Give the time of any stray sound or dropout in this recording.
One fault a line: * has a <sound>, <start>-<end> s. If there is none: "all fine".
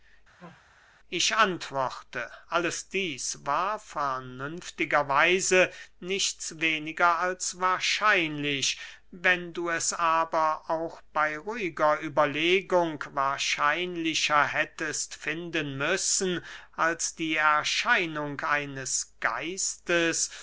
* has a sneeze, 0.4-0.6 s